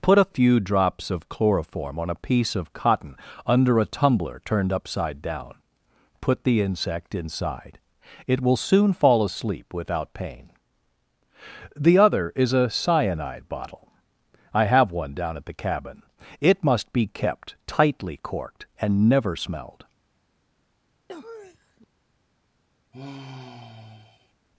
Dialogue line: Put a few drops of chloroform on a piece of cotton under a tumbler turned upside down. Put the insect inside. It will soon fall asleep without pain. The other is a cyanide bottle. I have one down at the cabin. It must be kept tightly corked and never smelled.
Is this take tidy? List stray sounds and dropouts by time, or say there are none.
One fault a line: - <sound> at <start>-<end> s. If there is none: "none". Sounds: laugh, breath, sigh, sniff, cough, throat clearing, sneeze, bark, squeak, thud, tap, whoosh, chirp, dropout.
- sniff at 21.1-21.9 s
- sigh at 22.9-24.3 s